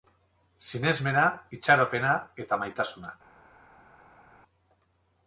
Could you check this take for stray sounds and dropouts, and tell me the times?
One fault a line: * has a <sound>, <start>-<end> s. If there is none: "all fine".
all fine